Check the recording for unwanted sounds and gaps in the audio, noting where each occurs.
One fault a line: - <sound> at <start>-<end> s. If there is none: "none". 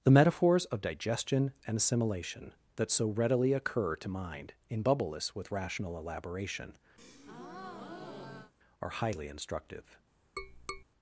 - breath at 7.0-8.5 s
- tap at 10.4-10.8 s